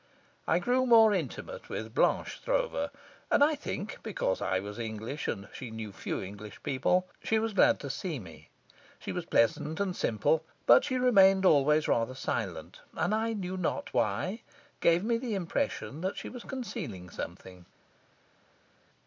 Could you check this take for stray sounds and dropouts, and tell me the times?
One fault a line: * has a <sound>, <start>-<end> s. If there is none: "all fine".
all fine